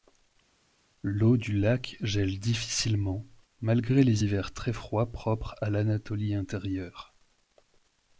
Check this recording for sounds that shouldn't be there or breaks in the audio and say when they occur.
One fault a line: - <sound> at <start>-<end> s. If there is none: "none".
none